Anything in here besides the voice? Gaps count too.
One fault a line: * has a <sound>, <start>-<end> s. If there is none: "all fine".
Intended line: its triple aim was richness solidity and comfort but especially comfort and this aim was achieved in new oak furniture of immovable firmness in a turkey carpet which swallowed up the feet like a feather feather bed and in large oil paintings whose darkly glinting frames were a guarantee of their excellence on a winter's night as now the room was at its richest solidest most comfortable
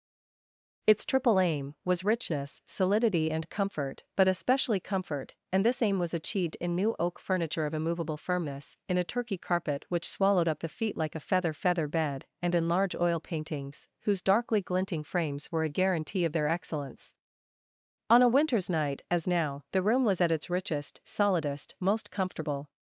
all fine